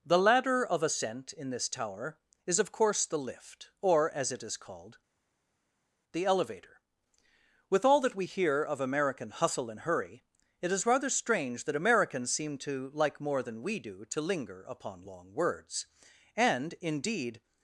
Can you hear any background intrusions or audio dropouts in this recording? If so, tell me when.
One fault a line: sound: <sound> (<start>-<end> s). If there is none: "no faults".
no faults